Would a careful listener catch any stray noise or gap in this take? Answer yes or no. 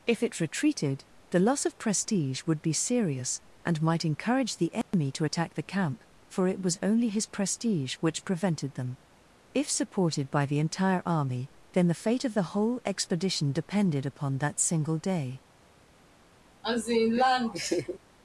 yes